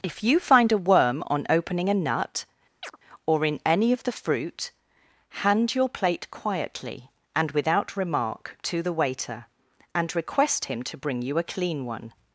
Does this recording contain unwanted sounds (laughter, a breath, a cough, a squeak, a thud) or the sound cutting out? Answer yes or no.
yes